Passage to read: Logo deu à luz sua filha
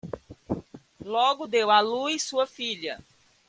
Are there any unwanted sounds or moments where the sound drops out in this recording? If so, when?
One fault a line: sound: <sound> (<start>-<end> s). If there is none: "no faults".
no faults